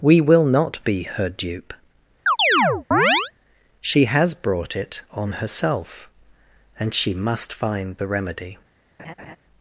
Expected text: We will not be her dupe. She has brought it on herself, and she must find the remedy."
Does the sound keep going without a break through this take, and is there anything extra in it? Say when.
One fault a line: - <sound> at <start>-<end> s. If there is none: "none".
- chirp at 2.3-3.3 s
- laugh at 9.0-9.4 s